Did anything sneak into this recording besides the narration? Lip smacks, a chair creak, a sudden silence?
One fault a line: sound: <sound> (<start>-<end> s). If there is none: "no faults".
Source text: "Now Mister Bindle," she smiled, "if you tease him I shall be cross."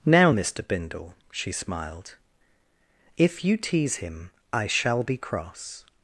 no faults